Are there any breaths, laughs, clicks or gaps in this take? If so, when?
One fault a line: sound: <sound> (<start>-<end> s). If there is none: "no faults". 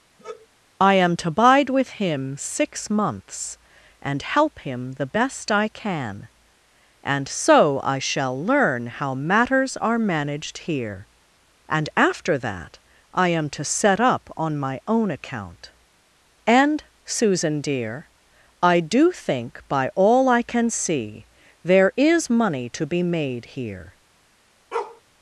sound: sigh (0.2-0.5 s)
sound: bark (24.7-25.0 s)